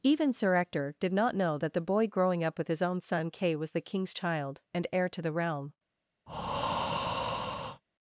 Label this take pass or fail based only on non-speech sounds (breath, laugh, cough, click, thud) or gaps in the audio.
fail